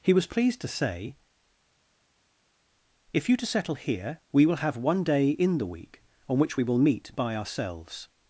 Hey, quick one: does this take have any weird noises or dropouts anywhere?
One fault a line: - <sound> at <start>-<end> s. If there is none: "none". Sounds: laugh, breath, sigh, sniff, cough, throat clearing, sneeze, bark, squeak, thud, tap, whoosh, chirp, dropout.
none